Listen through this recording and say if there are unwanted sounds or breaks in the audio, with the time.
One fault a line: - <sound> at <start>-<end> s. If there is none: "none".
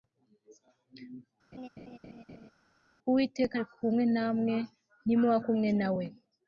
- laugh at 1.5-2.5 s